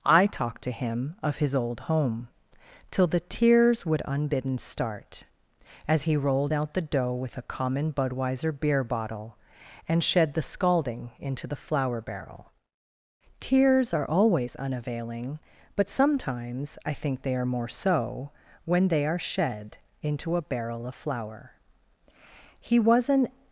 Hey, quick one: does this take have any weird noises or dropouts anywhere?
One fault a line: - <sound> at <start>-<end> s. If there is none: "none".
none